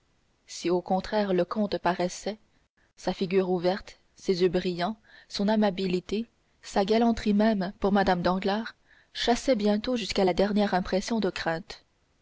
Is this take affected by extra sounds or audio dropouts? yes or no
no